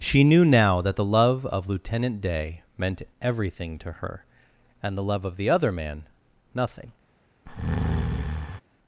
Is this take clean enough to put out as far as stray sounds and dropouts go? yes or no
no